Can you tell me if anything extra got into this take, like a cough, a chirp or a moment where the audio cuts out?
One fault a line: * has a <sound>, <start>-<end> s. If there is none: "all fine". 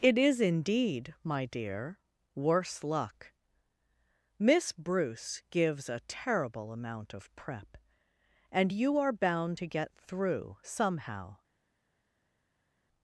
all fine